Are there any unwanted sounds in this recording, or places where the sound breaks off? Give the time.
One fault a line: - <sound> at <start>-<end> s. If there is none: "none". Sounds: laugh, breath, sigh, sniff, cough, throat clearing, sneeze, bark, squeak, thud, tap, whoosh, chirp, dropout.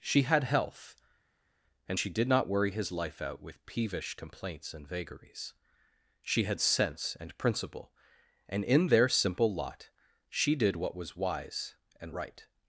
none